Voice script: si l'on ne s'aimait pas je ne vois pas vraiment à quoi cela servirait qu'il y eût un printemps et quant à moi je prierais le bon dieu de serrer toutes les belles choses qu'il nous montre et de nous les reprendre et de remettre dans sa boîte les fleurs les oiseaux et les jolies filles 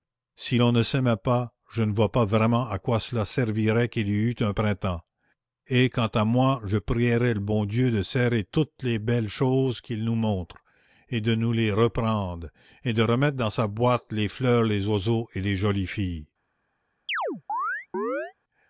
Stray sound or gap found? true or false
true